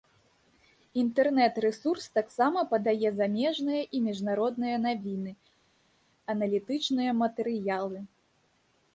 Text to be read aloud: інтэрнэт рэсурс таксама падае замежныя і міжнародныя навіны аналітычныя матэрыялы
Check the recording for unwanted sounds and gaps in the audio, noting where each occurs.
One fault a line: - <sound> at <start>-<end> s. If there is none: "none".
none